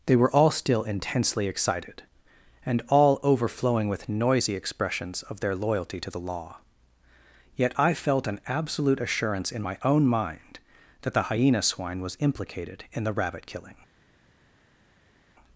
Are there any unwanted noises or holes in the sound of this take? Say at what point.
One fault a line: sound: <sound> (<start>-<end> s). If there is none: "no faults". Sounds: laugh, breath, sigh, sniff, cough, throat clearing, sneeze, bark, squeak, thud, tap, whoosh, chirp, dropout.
no faults